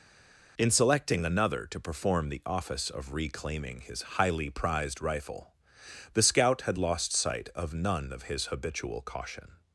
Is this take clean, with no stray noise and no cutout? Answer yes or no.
yes